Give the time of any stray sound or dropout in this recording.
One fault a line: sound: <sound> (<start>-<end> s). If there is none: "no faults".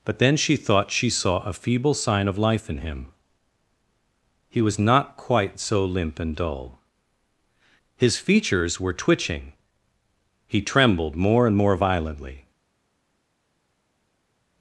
no faults